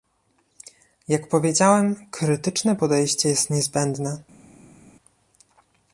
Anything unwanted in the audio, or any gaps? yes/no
no